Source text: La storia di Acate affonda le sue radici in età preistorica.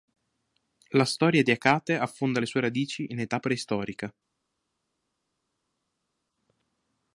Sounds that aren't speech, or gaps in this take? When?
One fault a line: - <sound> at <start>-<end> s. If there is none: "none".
none